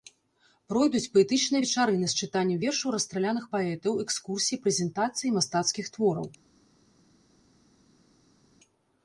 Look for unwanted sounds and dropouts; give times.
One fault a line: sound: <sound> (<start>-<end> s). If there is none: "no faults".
no faults